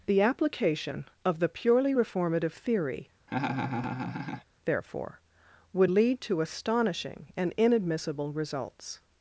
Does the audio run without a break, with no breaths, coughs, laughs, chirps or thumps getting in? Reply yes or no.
no